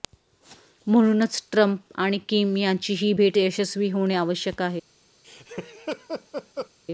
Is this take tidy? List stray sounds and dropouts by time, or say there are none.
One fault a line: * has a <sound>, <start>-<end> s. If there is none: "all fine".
* has a laugh, 5.2-6.7 s